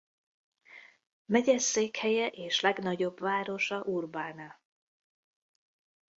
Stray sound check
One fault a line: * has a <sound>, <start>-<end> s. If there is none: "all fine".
all fine